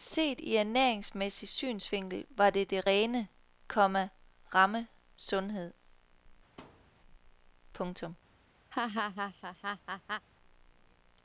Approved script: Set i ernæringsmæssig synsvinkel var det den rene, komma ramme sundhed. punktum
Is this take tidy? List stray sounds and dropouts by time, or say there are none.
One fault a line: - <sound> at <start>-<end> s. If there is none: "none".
- thud at 6.6-7.0 s
- laugh at 8.7-10.3 s